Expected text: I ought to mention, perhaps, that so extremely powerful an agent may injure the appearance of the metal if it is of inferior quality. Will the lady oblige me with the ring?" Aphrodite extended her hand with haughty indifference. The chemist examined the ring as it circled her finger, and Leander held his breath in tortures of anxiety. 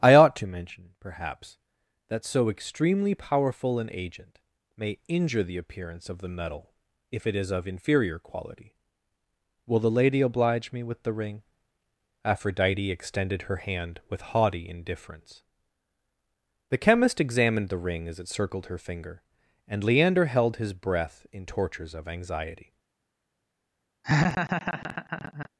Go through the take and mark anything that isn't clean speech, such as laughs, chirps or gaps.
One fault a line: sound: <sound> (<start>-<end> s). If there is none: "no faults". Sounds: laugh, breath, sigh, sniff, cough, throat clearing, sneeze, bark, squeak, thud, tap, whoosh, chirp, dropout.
sound: laugh (24.0-25.5 s)